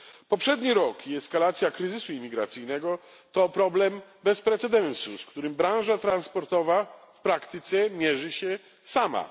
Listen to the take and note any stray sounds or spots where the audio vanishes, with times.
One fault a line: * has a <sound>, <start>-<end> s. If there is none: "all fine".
all fine